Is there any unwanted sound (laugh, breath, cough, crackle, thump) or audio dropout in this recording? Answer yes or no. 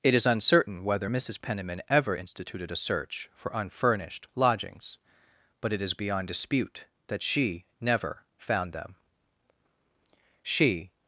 no